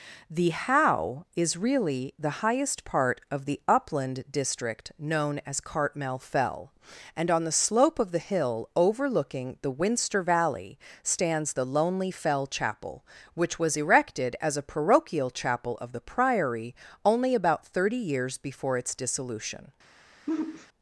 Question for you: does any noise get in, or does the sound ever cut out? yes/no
yes